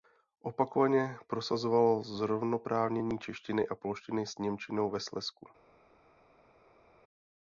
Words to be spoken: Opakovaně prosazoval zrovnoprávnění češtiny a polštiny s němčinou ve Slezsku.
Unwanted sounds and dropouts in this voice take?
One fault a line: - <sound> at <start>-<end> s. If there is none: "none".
none